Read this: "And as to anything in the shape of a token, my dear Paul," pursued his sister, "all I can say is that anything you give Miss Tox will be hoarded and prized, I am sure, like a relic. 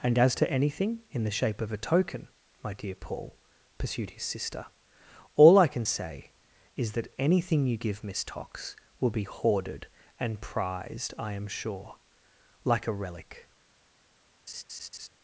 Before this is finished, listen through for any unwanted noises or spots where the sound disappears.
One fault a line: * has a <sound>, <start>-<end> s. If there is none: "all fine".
* has a laugh, 14.5-15.1 s